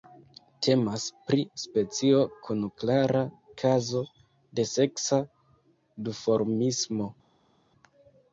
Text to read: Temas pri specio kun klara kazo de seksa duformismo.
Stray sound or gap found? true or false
false